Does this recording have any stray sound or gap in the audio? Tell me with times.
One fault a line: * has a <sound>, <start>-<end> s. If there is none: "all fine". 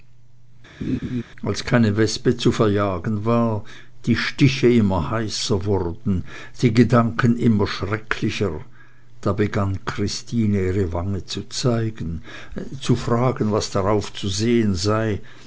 * has a laugh, 0.8-1.2 s